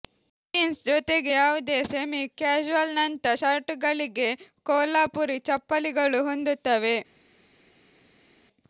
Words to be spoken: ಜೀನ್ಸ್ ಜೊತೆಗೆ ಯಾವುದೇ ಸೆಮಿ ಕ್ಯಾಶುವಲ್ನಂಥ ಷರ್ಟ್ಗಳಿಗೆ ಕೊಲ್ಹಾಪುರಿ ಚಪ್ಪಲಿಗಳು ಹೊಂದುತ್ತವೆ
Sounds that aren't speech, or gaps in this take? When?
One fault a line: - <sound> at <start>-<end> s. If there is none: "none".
none